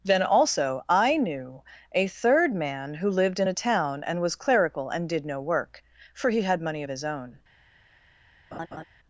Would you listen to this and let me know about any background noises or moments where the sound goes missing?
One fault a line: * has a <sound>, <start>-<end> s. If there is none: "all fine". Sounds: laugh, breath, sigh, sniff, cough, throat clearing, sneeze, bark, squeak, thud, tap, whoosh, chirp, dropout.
* has a laugh, 8.5-8.8 s